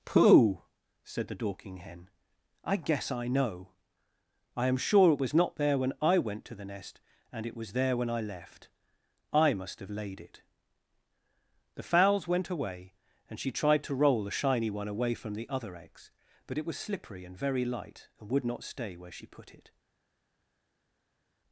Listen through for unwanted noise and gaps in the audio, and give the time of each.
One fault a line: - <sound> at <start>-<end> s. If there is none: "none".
none